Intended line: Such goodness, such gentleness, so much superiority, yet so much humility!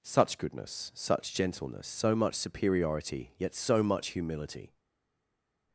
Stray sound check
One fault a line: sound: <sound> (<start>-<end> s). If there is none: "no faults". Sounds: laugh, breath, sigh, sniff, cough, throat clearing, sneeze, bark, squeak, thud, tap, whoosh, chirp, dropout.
no faults